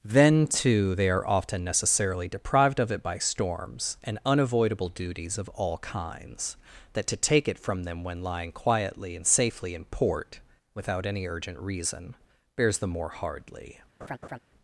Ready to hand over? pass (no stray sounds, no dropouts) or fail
fail